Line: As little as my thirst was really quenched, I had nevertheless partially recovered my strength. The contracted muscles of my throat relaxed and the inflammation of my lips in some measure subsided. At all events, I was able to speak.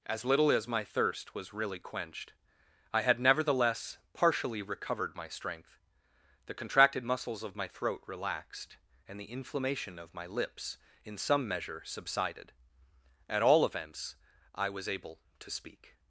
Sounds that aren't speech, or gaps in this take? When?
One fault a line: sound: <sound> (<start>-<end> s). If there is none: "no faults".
no faults